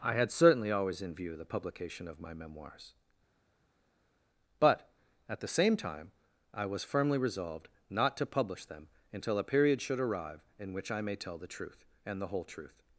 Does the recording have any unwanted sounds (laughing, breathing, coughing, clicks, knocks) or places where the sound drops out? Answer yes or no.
no